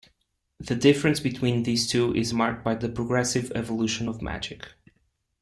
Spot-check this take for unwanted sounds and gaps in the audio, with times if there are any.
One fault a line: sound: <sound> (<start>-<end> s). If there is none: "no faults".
no faults